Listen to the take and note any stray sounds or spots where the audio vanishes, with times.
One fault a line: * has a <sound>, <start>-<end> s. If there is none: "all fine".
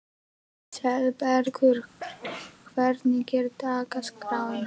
* has a sneeze, 2.0-2.6 s